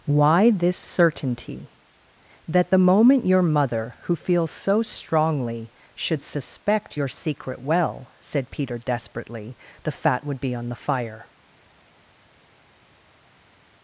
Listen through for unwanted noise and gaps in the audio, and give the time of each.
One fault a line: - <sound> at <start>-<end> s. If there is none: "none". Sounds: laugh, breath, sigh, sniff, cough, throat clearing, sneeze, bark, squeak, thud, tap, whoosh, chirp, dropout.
none